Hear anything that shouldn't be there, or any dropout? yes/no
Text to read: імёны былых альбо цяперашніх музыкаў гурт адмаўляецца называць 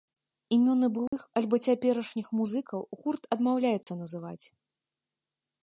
yes